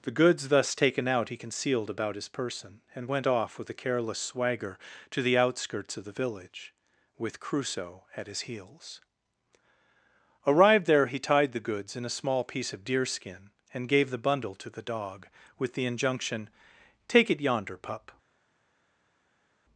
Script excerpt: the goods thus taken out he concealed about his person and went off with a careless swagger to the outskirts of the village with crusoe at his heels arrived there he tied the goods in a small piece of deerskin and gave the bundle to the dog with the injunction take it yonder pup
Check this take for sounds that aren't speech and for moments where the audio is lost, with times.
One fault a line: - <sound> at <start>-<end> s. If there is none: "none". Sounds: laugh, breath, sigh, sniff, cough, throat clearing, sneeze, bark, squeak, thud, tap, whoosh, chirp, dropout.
none